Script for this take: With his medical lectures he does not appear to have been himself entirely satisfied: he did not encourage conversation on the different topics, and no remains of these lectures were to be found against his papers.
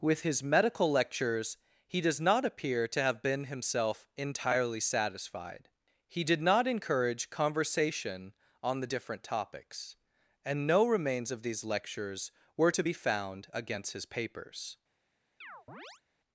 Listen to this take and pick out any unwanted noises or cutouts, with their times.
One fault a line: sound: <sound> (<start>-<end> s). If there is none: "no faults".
sound: chirp (15.4-16.0 s)